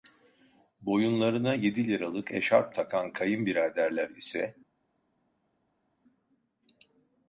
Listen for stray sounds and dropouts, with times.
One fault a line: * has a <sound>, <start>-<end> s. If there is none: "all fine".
all fine